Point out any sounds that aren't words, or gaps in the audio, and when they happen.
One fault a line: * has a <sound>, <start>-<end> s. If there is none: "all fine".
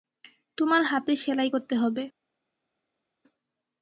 all fine